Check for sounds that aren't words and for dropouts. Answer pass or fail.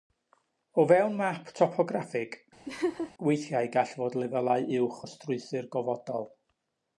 fail